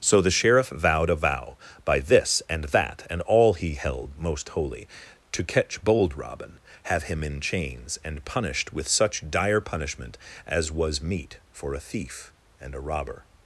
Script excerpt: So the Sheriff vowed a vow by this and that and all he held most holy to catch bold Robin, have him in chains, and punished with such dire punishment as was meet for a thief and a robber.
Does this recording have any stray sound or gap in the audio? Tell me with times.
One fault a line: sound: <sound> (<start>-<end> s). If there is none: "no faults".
no faults